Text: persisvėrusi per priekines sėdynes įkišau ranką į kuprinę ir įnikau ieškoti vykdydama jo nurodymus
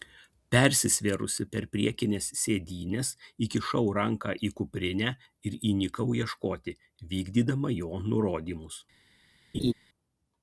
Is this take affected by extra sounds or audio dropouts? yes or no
yes